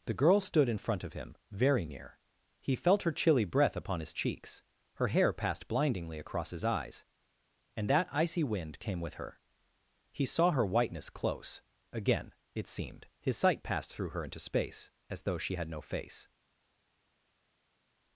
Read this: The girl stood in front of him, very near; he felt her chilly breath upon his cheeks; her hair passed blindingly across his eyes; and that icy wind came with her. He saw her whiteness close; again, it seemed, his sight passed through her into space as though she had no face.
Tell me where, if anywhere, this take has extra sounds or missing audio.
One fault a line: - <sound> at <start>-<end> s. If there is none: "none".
none